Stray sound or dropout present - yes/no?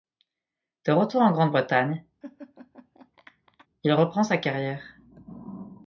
yes